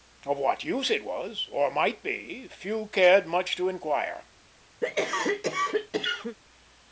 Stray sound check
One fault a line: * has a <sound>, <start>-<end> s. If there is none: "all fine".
* has a cough, 4.8-6.4 s